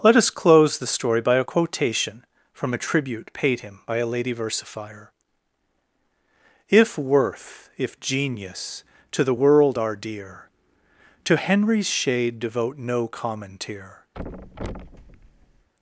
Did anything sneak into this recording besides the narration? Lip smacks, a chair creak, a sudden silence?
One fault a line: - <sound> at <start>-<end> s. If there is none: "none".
- thud at 14.1-15.7 s